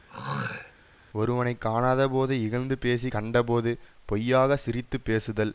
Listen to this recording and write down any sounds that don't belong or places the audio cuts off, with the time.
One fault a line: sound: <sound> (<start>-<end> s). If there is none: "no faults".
sound: throat clearing (0.1-0.7 s)